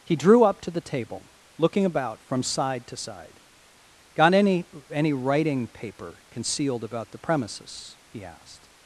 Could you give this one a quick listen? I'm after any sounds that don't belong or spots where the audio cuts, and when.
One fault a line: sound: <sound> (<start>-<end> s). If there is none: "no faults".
no faults